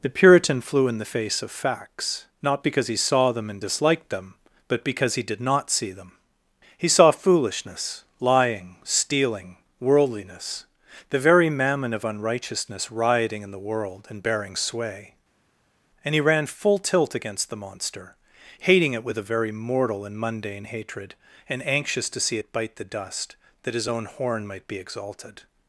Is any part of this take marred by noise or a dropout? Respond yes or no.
no